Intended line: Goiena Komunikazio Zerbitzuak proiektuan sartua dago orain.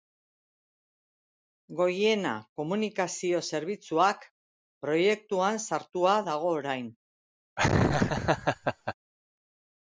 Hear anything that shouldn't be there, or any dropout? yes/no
yes